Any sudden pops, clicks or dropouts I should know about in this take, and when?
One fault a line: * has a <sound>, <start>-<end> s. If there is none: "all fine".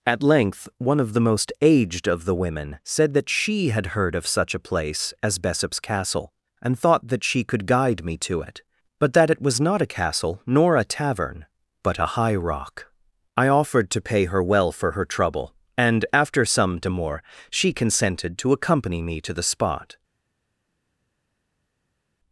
all fine